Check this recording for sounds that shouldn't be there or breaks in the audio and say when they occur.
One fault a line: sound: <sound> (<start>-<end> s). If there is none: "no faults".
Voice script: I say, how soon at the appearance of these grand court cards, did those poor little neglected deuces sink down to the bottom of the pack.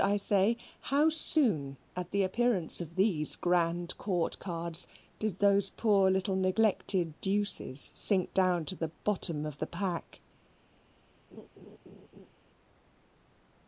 sound: laugh (11.3-12.3 s)